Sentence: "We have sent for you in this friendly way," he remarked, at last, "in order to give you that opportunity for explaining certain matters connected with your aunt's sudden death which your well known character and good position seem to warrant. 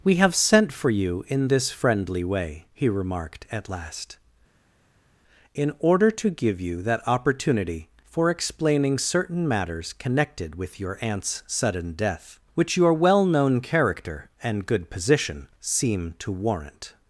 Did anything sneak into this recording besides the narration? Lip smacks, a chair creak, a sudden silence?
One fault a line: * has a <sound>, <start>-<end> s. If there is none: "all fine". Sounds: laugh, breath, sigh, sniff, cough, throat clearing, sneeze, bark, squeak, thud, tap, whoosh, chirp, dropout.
all fine